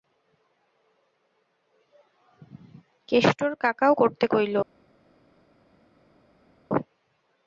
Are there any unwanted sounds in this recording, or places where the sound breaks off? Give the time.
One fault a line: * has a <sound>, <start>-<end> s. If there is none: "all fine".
all fine